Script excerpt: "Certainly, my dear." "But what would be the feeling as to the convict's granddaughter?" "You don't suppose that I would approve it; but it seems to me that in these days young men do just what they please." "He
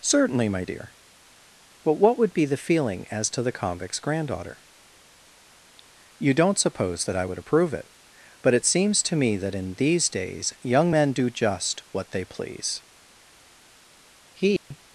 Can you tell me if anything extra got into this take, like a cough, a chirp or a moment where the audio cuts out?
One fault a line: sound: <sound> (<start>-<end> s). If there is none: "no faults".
sound: dropout (14.6-14.7 s)